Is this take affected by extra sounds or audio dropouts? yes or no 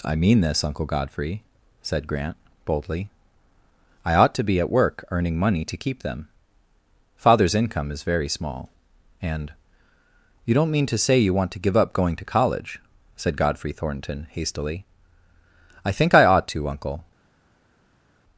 no